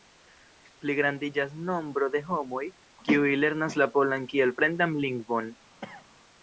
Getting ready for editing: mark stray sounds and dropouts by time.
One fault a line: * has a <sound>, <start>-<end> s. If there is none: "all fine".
* has a cough, 5.8-6.1 s